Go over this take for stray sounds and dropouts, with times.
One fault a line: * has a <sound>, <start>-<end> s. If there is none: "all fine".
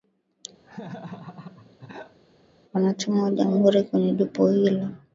* has a laugh, 0.6-2.2 s